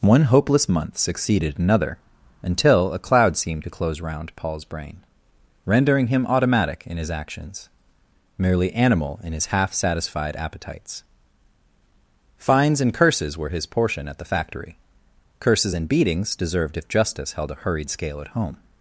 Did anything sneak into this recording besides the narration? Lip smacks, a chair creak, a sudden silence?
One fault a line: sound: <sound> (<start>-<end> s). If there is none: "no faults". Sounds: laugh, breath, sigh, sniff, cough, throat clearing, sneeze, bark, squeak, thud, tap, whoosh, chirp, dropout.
no faults